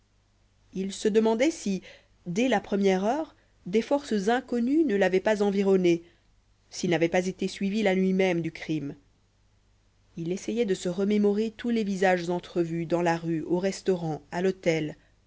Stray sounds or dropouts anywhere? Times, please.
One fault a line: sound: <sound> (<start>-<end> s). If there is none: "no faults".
no faults